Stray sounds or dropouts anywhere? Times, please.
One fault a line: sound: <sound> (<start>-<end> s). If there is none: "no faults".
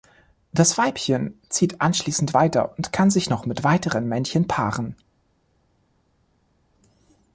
no faults